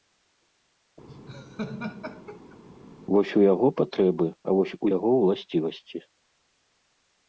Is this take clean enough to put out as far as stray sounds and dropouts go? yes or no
no